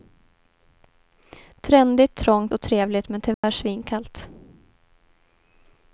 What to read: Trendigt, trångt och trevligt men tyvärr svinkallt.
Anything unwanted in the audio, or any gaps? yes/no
yes